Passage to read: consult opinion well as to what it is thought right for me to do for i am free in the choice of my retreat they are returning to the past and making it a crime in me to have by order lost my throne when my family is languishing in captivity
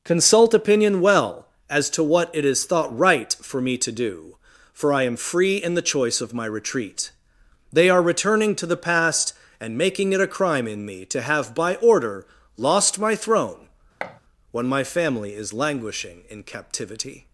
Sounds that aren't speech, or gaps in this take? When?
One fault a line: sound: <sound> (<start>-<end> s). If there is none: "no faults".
sound: thud (14.0-14.2 s)